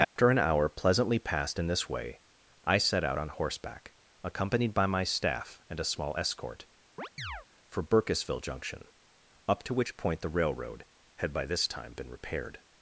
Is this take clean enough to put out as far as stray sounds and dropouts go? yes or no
no